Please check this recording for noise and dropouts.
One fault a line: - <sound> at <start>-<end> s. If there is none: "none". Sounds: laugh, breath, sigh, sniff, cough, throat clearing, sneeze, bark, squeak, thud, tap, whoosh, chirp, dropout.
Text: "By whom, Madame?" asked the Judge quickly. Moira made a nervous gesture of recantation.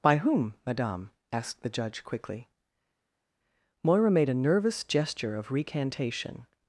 none